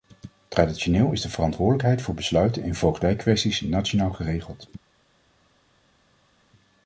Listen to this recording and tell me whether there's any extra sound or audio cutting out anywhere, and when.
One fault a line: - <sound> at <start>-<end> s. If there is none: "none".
none